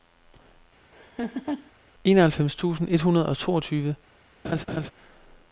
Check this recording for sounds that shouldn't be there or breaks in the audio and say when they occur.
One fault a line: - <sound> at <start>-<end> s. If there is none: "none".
- laugh at 0.9-1.7 s
- laugh at 4.4-4.9 s